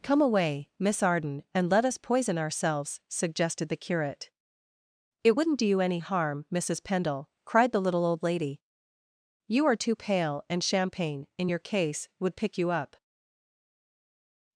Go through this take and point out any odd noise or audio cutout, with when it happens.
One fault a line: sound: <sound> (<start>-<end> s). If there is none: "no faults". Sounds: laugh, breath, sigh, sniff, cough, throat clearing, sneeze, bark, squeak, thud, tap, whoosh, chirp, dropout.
no faults